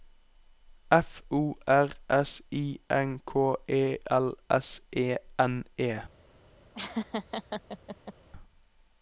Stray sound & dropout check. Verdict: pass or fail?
fail